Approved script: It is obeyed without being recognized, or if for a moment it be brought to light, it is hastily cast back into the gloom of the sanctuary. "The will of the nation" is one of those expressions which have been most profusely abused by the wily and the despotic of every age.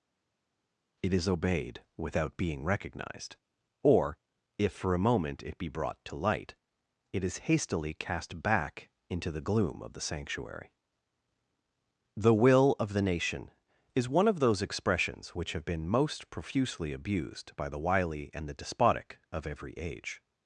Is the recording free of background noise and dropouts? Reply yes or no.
yes